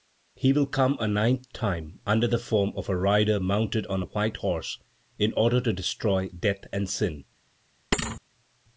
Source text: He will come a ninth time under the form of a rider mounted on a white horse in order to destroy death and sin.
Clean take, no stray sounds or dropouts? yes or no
no